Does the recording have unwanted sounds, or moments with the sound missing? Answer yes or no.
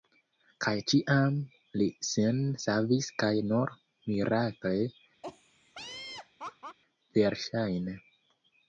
yes